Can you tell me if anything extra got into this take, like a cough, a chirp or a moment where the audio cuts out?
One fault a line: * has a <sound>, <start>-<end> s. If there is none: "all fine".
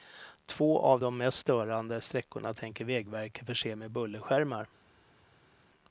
all fine